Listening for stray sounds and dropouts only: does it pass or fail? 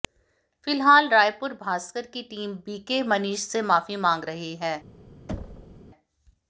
fail